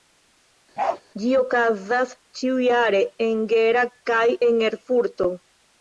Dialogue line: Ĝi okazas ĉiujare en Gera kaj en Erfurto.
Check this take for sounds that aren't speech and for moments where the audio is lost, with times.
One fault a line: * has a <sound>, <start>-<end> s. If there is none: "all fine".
* has a bark, 0.8-1.0 s